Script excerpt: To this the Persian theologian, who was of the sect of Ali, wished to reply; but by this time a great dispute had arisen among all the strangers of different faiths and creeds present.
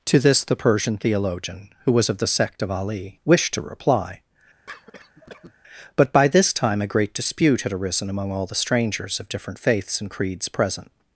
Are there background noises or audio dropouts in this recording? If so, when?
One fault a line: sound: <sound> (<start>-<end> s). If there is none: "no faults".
sound: cough (4.7-5.5 s)